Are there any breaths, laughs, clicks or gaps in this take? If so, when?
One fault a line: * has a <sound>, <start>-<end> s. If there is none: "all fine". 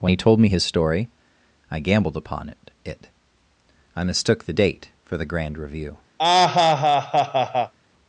* has a laugh, 6.2-7.7 s